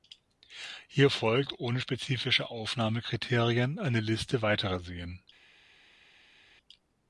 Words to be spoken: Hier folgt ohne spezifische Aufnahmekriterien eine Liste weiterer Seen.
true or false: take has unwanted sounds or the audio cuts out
false